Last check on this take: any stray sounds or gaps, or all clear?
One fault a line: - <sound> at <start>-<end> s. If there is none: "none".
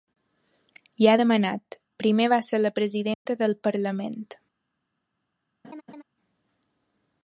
- dropout at 3.1-3.3 s
- laugh at 5.6-6.0 s